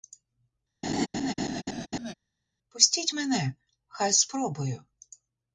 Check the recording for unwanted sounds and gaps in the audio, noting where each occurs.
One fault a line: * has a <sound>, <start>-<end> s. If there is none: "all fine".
* has a laugh, 0.8-2.1 s